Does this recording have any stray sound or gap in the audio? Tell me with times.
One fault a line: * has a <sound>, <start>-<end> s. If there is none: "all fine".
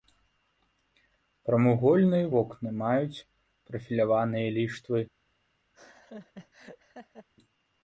* has a laugh, 5.7-7.3 s